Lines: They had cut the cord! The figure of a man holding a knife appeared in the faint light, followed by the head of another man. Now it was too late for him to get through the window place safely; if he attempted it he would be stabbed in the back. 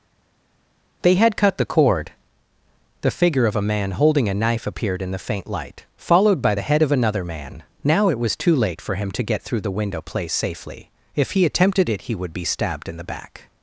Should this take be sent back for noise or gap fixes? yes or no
no